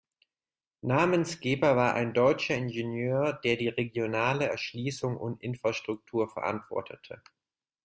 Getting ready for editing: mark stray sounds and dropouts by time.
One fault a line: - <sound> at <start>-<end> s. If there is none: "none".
none